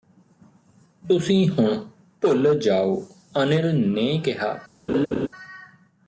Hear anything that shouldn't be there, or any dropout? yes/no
yes